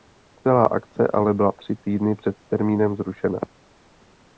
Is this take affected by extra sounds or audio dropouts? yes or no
no